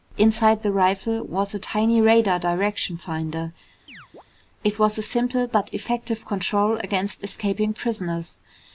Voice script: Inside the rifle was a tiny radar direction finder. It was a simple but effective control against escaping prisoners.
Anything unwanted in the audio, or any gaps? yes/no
yes